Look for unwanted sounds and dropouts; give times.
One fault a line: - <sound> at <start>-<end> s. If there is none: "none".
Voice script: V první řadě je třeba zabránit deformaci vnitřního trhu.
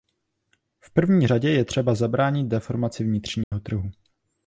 - dropout at 3.4-3.5 s